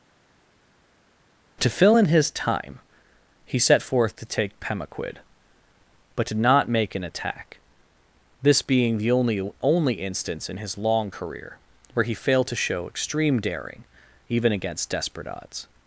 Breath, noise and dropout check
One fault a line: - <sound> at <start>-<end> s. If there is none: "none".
none